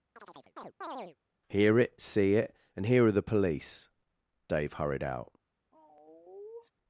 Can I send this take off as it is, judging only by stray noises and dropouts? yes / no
no